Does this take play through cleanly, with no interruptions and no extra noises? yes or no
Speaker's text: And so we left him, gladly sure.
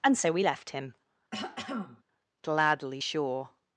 no